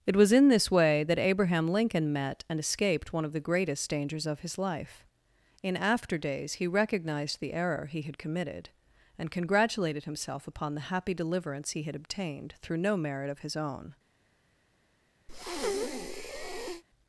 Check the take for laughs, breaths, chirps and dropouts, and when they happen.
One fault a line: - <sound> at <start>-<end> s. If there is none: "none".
- breath at 15.3-16.8 s